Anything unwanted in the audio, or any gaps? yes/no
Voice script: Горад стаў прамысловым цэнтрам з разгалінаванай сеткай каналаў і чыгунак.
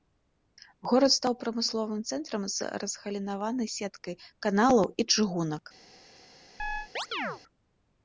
yes